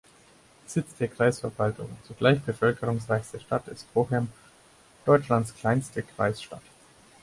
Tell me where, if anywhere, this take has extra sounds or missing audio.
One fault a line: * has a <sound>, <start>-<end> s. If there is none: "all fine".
all fine